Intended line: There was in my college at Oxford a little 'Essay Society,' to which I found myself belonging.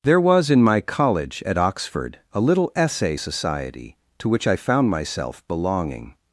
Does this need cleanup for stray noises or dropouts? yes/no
no